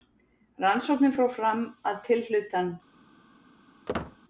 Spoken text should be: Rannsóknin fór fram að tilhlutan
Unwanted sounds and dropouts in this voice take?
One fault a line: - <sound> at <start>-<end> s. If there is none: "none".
- squeak at 3.9-4.2 s